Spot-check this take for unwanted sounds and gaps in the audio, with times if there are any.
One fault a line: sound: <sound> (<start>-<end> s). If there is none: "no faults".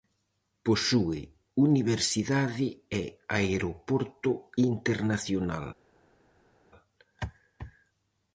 no faults